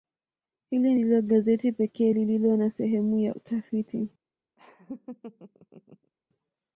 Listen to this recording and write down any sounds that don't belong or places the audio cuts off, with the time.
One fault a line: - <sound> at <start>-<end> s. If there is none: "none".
- laugh at 4.6-6.1 s